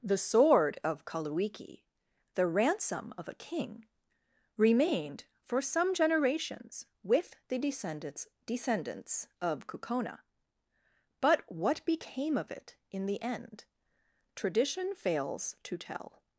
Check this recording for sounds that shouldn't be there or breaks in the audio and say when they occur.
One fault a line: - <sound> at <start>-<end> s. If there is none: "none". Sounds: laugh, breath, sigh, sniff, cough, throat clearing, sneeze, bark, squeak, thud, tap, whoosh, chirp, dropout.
none